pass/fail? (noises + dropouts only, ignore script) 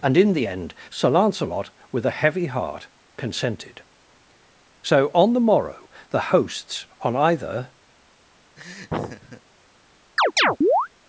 fail